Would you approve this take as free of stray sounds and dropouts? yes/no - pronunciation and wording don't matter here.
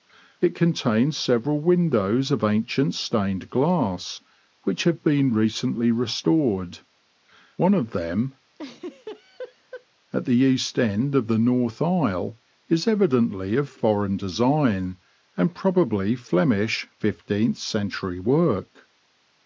no